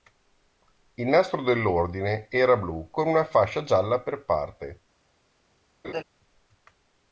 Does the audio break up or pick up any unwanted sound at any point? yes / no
yes